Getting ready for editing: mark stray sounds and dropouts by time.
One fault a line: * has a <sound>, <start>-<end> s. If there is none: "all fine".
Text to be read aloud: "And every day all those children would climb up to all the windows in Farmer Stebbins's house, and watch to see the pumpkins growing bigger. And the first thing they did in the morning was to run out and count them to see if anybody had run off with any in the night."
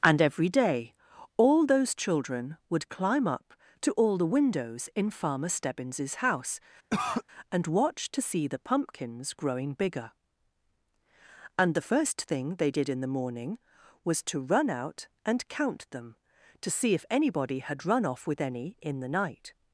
* has a cough, 6.9-7.2 s